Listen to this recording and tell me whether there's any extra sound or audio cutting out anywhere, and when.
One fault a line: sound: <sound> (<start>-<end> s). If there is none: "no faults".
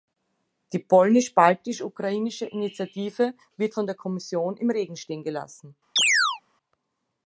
sound: chirp (6.0-6.4 s)